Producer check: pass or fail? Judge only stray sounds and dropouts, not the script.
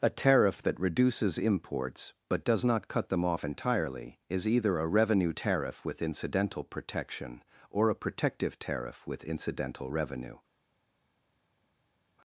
pass